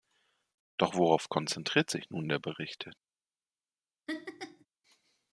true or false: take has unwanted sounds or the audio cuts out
true